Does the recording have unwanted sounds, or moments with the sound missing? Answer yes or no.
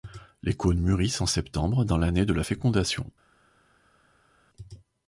no